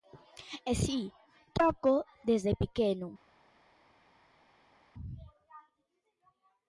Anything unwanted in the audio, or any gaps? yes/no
no